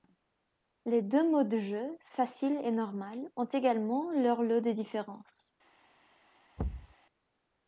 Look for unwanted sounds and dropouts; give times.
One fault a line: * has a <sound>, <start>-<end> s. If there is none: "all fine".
* has a thud, 6.6-6.9 s